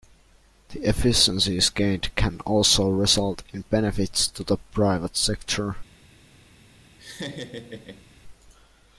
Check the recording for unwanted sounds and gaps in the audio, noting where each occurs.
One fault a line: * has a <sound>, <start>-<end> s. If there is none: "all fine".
* has a laugh, 7.0-8.1 s